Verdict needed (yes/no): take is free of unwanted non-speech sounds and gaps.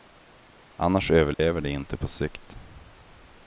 no